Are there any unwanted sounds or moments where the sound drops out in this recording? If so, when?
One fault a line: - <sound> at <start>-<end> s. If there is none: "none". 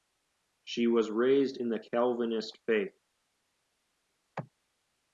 none